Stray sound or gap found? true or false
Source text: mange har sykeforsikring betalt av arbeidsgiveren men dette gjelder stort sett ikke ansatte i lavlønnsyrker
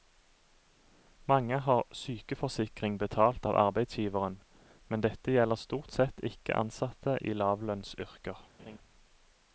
true